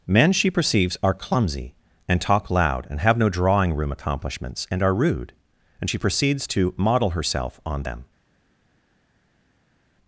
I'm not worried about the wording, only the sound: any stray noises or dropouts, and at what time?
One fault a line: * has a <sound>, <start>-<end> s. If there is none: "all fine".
all fine